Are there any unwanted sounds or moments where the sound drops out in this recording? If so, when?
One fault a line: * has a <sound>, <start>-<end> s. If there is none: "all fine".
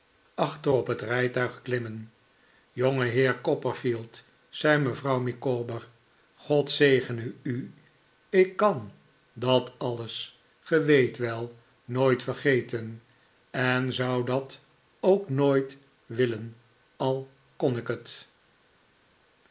all fine